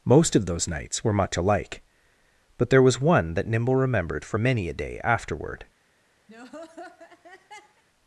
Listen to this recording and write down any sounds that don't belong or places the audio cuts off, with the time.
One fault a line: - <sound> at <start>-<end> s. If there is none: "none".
- laugh at 6.3-7.8 s